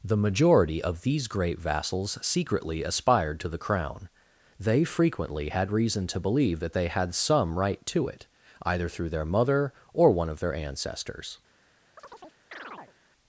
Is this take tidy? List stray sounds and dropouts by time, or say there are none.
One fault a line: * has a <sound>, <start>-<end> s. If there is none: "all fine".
* has a chirp, 12.0-12.9 s